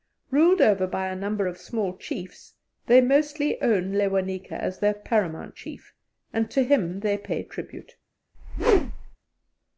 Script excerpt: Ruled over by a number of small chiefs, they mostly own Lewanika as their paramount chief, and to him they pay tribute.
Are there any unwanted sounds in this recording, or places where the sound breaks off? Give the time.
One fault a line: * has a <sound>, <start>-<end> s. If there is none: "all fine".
* has a whoosh, 8.3-9.2 s